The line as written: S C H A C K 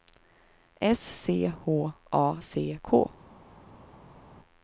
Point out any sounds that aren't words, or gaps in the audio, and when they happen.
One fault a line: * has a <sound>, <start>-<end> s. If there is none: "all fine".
all fine